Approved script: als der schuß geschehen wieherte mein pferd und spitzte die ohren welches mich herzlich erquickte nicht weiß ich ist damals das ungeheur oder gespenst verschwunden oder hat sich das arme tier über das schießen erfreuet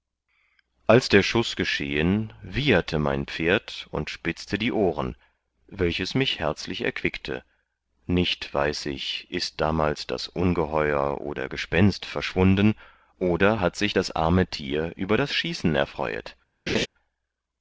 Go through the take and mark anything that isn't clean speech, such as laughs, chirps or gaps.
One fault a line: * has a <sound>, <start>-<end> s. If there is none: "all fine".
* has a laugh, 16.7-16.9 s